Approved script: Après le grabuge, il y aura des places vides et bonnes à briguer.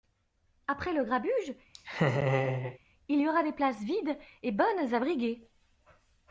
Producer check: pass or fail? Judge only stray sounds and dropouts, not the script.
fail